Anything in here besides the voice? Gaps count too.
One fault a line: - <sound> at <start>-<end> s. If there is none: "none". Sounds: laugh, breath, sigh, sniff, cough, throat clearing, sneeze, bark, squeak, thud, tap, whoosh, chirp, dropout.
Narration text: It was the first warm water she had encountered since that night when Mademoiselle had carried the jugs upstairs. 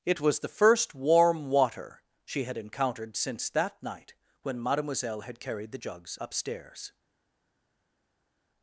none